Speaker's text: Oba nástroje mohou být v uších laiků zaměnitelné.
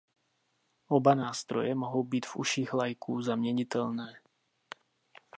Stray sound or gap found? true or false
false